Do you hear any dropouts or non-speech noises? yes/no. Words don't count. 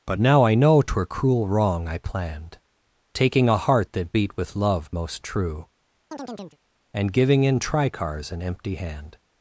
yes